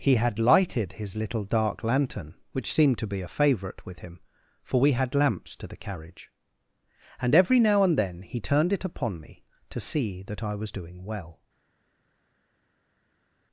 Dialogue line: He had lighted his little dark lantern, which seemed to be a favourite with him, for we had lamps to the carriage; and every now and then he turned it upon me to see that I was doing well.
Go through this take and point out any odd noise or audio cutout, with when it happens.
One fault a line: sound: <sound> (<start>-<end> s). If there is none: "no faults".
no faults